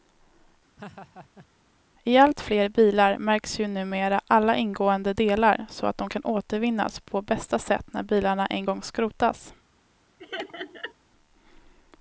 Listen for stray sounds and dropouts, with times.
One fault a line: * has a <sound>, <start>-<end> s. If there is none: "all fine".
* has a laugh, 0.8-1.5 s
* has a laugh, 10.2-10.9 s